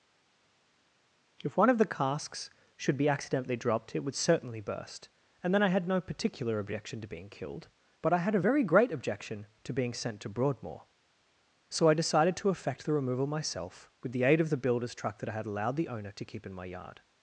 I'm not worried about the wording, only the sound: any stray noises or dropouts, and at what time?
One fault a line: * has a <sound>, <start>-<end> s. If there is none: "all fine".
all fine